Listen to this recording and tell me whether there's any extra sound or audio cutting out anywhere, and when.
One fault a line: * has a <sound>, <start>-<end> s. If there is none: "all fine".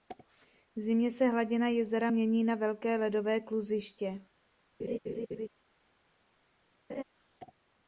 * has a laugh, 4.8-5.5 s
* has a laugh, 6.9-7.0 s